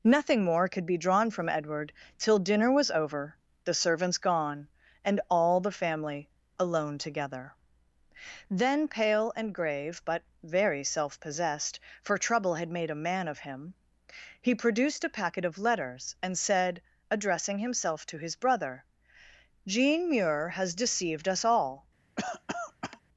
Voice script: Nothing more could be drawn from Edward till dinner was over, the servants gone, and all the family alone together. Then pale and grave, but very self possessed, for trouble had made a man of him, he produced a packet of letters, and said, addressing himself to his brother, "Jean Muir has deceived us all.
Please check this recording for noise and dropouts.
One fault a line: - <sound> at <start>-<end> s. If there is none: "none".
- cough at 22.2-23.0 s